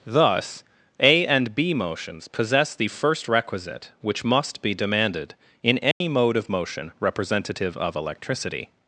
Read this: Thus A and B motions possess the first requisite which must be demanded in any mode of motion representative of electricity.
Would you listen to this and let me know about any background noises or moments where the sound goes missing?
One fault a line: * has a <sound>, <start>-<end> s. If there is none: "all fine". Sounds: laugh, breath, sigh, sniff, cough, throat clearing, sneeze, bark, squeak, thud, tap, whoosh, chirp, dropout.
* has a dropout, 5.9-6.0 s